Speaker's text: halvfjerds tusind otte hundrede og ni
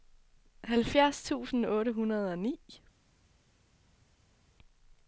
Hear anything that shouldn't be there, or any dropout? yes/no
no